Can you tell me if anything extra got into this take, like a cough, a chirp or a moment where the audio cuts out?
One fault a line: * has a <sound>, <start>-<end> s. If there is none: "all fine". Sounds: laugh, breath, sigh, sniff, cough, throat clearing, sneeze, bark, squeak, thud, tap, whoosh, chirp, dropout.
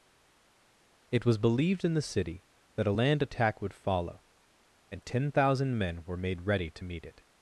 all fine